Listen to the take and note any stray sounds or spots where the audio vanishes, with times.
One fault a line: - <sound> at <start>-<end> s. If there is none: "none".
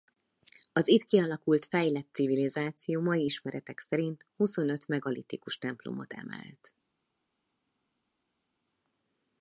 none